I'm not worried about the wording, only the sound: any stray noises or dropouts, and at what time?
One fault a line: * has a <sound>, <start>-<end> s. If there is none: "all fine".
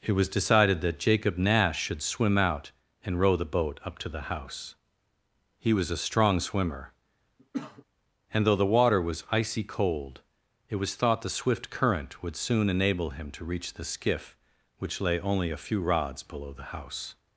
* has a cough, 7.4-7.8 s